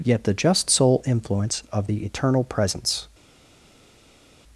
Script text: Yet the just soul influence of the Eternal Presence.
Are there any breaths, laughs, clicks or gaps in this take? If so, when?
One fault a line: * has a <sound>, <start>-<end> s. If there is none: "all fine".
all fine